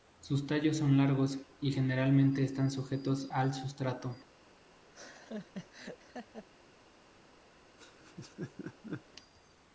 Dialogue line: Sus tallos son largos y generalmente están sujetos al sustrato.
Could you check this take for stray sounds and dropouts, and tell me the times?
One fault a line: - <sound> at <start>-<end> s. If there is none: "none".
- laugh at 4.9-6.5 s
- laugh at 7.8-9.0 s